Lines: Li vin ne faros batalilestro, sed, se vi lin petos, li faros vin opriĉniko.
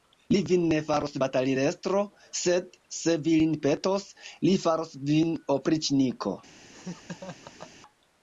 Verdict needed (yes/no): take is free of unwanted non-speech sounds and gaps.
no